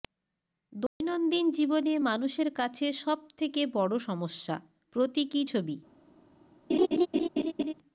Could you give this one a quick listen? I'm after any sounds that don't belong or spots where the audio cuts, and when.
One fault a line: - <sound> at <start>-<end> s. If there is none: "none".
- dropout at 0.9-1.0 s
- laugh at 6.7-7.7 s